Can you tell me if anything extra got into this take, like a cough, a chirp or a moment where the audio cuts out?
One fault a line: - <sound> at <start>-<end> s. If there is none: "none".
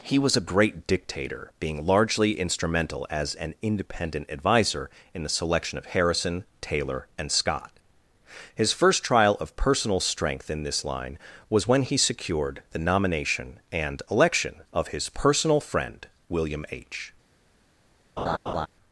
- laugh at 18.2-18.7 s